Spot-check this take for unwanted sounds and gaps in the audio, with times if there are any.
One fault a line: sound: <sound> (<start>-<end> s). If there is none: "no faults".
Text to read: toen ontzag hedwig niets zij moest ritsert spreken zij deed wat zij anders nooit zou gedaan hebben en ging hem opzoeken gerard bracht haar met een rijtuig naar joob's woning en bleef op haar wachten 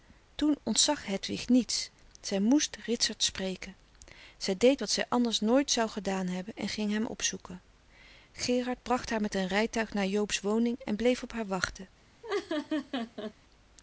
sound: laugh (12.2-13.3 s)